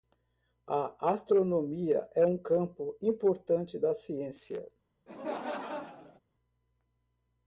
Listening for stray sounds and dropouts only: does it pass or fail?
fail